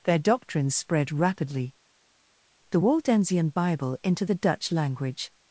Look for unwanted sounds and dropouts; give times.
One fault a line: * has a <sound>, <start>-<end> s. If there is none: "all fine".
all fine